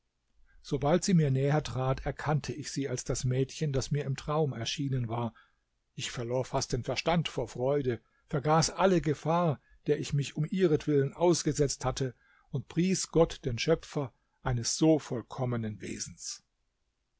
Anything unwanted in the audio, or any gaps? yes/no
no